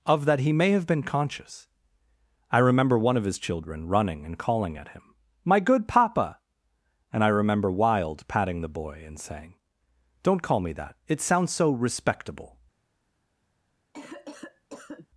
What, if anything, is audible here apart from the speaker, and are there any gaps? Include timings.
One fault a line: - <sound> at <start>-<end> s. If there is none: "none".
- cough at 13.9-15.1 s